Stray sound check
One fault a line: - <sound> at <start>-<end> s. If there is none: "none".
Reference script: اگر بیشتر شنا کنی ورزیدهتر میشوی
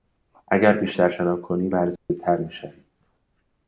- dropout at 2.0-2.1 s